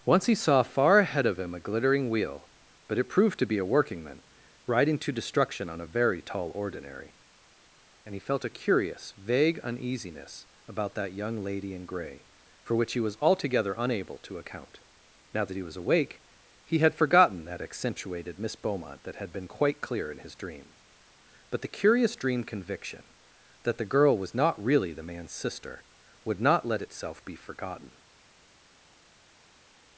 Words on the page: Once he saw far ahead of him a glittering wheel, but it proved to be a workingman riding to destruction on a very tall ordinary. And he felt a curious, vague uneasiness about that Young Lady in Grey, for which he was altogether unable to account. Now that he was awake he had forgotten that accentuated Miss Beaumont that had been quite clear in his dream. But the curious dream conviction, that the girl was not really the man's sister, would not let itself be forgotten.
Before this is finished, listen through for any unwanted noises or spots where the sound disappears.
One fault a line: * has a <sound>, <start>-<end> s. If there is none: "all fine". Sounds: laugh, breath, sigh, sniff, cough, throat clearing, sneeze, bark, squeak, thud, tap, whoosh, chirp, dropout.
all fine